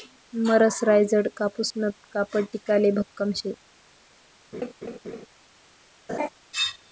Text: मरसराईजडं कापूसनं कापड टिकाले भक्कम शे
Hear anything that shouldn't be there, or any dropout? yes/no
yes